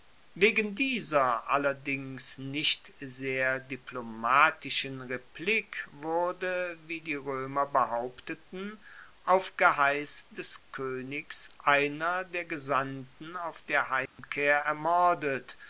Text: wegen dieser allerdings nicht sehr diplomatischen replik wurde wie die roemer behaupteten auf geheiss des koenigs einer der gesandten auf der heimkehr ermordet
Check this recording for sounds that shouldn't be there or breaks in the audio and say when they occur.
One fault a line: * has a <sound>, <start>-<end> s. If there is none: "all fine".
* has a dropout, 14.1-14.2 s